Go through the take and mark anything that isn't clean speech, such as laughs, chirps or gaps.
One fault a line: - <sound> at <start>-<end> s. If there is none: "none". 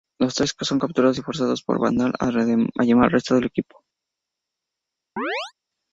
- chirp at 5.2-5.5 s